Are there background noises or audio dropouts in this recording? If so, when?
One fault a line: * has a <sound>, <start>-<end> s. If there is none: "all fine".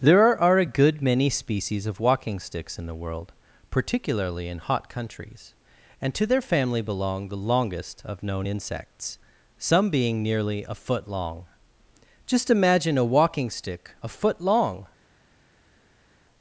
all fine